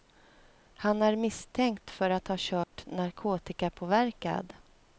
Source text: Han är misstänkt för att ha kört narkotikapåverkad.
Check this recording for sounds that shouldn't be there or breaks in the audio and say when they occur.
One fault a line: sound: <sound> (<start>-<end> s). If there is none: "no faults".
sound: dropout (2.6-2.7 s)